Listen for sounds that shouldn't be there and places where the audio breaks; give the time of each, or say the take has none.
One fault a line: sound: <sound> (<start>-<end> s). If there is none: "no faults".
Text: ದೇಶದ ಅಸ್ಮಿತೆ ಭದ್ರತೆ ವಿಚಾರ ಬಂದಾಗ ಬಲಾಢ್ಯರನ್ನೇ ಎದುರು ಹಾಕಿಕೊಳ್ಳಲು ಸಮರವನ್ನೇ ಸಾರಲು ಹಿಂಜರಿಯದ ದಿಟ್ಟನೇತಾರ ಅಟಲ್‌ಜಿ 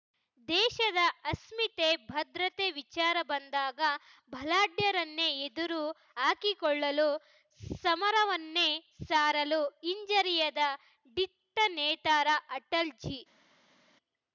no faults